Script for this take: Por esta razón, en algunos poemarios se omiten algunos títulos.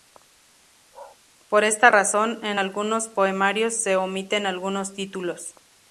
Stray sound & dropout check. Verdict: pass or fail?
fail